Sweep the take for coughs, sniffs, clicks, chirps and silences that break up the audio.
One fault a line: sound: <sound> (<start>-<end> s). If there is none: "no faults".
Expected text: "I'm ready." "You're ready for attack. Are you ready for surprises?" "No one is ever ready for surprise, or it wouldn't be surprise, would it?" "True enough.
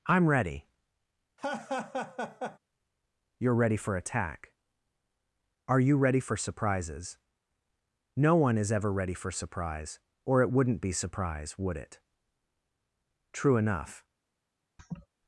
sound: laugh (1.4-2.6 s)
sound: laugh (14.8-15.1 s)